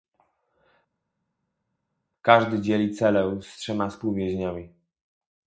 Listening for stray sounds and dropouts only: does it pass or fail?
pass